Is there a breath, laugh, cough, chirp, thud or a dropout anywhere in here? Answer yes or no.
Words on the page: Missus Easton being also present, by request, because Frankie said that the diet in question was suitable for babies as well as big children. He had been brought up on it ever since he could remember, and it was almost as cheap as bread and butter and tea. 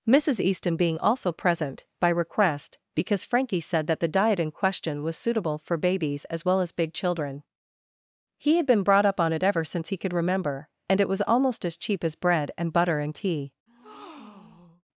yes